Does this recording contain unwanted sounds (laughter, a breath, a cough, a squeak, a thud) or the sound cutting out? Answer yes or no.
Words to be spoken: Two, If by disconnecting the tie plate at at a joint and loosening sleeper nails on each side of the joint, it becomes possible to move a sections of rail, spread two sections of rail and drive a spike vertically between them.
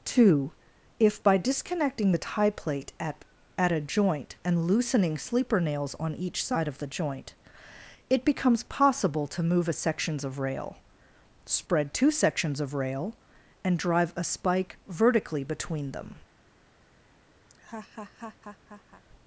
yes